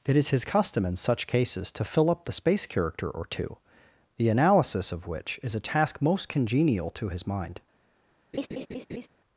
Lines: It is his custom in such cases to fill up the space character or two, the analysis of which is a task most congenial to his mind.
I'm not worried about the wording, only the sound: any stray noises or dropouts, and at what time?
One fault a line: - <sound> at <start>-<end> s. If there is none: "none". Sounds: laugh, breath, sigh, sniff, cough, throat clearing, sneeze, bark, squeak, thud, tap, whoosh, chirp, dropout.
- laugh at 8.3-9.1 s